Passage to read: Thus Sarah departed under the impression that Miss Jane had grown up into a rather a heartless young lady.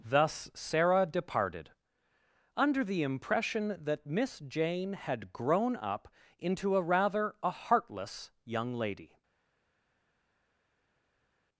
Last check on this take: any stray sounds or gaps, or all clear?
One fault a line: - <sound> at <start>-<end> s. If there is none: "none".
none